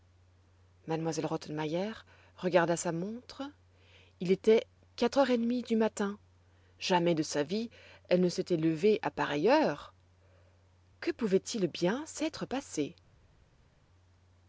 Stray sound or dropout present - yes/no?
no